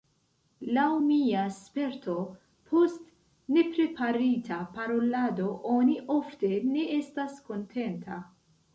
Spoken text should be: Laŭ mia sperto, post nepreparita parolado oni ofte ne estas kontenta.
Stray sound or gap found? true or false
false